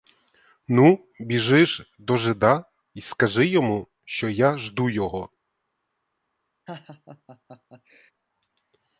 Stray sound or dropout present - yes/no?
yes